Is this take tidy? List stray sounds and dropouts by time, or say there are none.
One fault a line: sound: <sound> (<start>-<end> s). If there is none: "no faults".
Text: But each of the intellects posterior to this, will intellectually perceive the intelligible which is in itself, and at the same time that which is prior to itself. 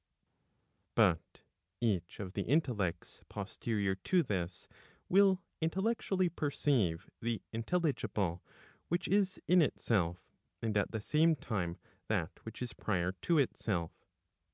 no faults